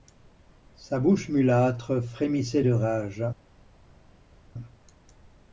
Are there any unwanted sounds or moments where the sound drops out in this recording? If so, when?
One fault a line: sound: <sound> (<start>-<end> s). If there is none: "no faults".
no faults